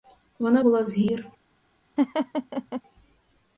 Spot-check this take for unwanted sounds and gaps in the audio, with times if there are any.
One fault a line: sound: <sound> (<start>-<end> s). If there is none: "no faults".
sound: laugh (2.0-2.8 s)